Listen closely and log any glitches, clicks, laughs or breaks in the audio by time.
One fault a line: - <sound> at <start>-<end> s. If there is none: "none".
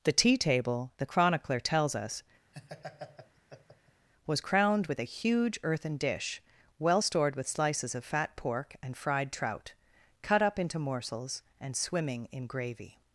- laugh at 2.5-4.1 s